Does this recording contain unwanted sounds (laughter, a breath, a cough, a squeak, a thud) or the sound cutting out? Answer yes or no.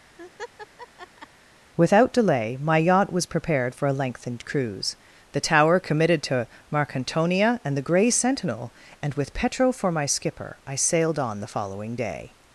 yes